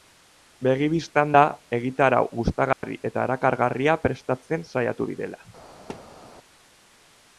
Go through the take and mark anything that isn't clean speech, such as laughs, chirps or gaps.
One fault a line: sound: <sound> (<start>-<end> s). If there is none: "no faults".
sound: dropout (2.7-2.8 s)
sound: thud (5.9-6.2 s)